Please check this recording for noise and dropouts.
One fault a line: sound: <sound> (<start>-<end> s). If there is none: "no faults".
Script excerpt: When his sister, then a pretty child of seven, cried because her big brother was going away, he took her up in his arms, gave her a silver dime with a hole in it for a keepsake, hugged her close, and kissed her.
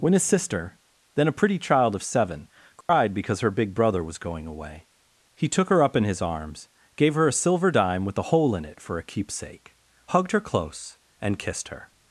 sound: dropout (2.8-2.9 s)